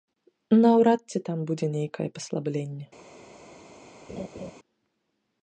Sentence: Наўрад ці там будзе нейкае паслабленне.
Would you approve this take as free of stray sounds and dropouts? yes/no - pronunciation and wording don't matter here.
no